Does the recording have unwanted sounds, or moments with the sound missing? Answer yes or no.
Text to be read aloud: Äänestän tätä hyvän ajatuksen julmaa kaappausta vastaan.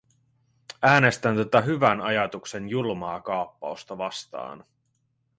no